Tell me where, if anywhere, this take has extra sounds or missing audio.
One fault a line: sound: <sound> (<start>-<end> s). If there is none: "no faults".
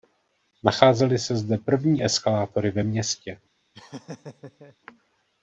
sound: laugh (3.7-4.8 s)